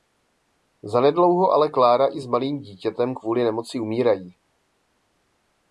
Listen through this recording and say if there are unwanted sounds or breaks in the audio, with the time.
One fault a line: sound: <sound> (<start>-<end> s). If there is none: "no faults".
no faults